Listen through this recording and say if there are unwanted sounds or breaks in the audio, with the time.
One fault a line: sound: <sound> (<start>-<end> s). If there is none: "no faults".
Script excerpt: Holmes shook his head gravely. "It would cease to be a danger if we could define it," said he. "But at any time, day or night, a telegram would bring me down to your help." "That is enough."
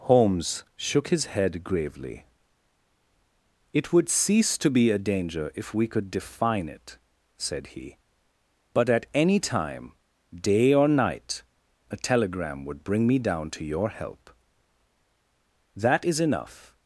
no faults